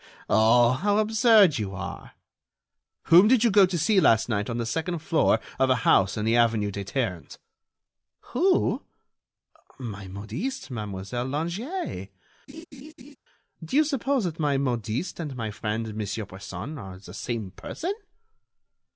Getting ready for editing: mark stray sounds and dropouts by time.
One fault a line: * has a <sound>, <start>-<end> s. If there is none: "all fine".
* has a laugh, 12.5-13.2 s